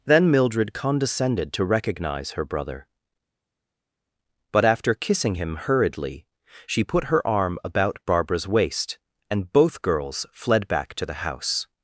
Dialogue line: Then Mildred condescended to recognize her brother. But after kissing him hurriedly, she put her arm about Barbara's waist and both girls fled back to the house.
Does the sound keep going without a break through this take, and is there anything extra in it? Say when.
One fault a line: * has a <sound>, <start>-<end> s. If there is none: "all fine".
all fine